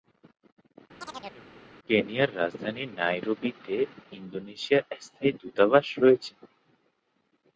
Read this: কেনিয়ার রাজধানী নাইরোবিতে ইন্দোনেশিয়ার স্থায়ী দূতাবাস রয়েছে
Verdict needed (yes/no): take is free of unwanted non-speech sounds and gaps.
no